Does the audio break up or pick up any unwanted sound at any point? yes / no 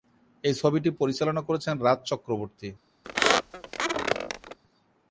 yes